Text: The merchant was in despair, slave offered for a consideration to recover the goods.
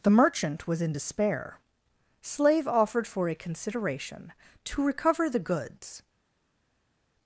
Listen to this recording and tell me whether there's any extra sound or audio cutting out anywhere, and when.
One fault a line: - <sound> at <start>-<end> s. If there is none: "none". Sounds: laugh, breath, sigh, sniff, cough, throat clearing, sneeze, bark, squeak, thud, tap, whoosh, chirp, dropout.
none